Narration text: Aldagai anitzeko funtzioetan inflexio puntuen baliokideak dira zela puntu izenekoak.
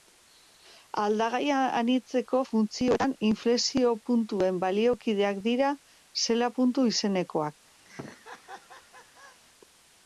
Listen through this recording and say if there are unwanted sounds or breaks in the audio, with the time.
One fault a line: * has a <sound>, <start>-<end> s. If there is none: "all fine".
* has a laugh, 7.8-9.4 s